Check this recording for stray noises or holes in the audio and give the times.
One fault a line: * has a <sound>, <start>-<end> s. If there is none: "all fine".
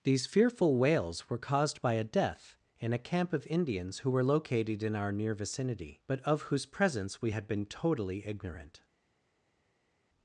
all fine